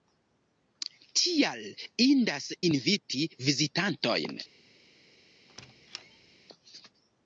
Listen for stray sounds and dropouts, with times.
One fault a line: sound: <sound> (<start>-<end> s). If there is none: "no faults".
sound: squeak (5.5-6.3 s)